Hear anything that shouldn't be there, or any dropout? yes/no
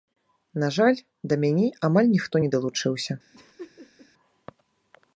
yes